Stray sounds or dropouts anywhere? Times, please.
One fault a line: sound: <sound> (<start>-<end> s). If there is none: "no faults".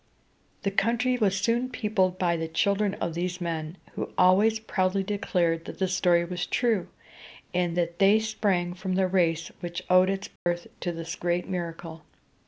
sound: dropout (10.4-10.5 s)